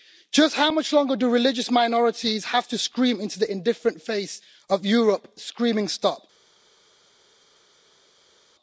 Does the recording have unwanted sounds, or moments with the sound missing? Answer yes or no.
no